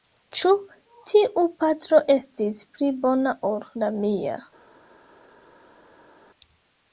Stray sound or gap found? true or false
false